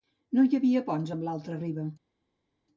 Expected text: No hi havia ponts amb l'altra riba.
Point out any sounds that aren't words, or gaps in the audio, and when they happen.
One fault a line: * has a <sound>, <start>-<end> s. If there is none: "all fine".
all fine